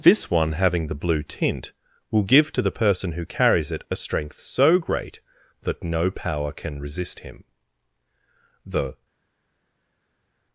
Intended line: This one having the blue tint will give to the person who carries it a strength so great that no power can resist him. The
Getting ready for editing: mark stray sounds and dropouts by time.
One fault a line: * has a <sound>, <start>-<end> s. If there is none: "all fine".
all fine